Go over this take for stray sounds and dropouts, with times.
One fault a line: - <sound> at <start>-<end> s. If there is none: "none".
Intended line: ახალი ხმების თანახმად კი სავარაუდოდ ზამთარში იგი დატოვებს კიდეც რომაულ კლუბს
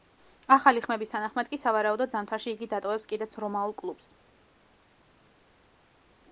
none